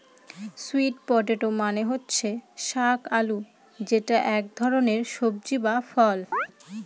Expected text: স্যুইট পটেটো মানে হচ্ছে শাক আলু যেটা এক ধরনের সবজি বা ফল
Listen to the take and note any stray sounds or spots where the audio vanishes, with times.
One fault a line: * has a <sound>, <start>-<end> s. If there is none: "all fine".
* has a chirp, 6.3-6.5 s